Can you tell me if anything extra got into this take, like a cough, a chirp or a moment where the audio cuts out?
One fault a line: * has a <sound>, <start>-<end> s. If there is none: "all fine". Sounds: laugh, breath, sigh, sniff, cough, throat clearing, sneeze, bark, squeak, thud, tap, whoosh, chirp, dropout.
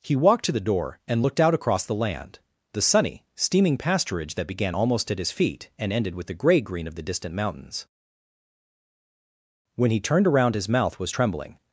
all fine